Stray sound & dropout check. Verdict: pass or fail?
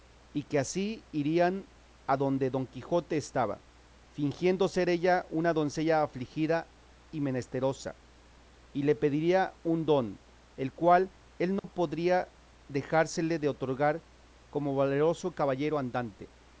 fail